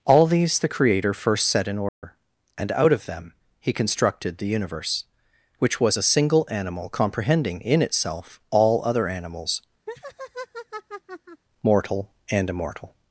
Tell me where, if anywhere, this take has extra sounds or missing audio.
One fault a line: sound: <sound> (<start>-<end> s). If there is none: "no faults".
sound: dropout (1.9-2.0 s)
sound: laugh (9.9-11.4 s)